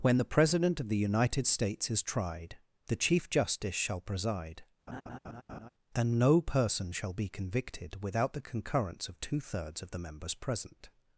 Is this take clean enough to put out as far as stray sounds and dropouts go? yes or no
no